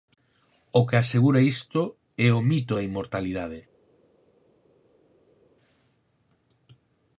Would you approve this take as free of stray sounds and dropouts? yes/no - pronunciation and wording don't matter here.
yes